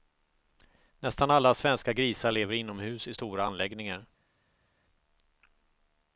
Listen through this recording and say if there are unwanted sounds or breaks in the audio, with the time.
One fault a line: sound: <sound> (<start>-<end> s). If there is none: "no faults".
no faults